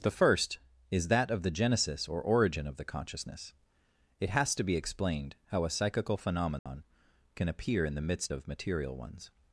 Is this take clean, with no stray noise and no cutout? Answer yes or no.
no